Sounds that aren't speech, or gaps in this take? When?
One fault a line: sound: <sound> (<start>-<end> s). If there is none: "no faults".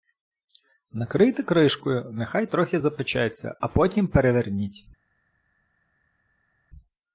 no faults